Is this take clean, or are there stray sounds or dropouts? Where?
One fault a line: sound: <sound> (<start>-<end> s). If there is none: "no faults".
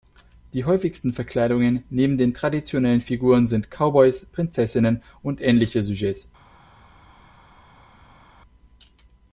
no faults